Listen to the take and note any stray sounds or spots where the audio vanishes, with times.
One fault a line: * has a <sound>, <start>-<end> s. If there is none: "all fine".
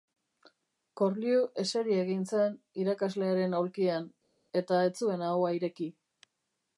all fine